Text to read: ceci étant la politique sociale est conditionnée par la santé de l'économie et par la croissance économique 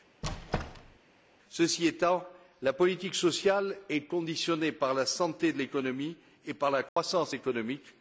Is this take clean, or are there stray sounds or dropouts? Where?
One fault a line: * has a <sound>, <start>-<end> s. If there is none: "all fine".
* has a squeak, 0.2-1.0 s
* has a dropout, 6.9-7.0 s